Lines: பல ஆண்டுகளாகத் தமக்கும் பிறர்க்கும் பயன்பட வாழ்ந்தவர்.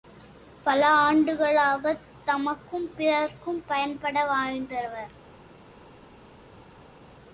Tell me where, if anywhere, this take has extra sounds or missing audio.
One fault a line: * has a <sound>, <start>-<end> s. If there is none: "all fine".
all fine